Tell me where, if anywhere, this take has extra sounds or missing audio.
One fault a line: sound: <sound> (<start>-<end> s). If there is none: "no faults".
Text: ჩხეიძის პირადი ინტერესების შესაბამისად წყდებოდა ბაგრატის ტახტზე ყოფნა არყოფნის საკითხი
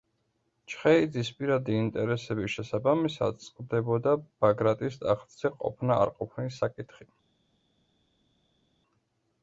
no faults